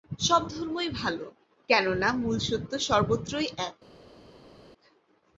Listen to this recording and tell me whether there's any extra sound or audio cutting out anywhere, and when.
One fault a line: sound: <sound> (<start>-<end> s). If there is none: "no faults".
no faults